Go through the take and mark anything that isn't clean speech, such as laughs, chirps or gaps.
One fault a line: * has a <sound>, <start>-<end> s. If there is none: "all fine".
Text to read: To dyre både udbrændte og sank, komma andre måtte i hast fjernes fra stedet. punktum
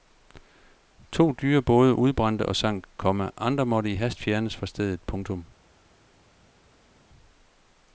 all fine